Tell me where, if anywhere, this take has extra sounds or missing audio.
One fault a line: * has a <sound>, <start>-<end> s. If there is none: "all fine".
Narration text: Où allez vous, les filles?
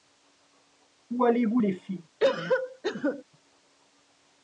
* has a cough, 2.2-3.2 s